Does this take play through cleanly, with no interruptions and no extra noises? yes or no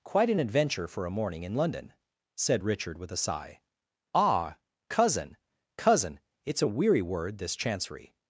yes